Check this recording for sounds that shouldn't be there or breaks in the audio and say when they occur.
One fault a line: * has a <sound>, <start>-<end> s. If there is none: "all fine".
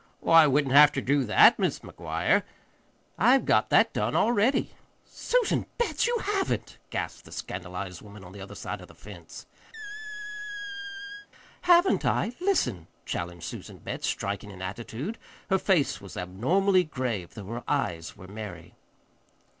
* has a squeak, 9.7-11.3 s